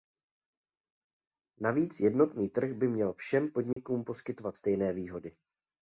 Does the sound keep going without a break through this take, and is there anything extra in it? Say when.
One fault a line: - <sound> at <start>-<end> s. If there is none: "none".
- dropout at 3.7-3.8 s